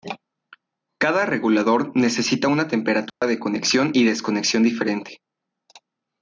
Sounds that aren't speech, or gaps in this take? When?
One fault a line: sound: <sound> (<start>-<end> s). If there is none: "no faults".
sound: dropout (3.1-3.2 s)